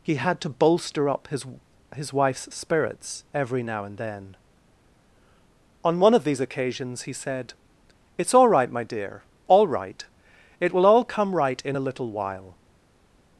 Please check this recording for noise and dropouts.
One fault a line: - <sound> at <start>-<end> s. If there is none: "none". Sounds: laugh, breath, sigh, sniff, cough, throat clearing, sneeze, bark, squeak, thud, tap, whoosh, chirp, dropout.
none